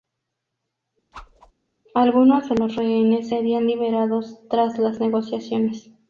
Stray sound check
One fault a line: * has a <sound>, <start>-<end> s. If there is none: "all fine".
* has a whoosh, 1.1-1.5 s